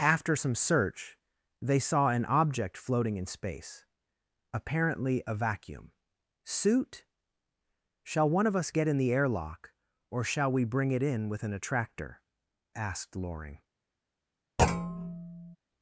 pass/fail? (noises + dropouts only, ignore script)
fail